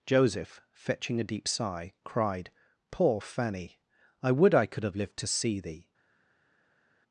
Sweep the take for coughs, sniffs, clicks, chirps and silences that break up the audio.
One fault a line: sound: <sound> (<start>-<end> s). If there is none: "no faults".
no faults